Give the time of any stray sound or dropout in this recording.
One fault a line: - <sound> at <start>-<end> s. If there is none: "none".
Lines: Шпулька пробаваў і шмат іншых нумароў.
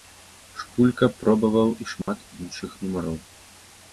- dropout at 2.0-2.1 s